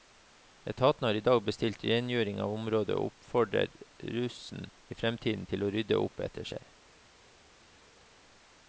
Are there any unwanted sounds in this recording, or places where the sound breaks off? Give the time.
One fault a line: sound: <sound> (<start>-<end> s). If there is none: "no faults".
no faults